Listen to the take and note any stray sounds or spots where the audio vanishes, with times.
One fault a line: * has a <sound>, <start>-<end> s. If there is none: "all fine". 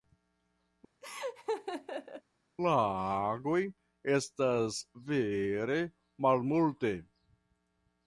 * has a laugh, 1.0-2.2 s